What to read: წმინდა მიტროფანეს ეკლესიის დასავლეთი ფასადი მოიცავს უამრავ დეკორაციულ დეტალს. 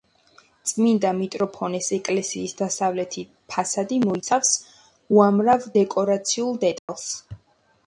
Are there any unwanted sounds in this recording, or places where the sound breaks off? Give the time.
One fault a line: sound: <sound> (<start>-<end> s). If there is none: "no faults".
sound: dropout (6.8-6.9 s)